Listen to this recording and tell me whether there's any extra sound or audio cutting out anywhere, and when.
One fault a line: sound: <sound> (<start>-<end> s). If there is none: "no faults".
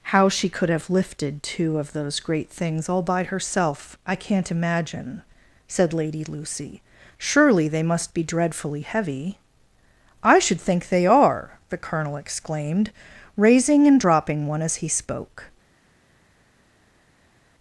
no faults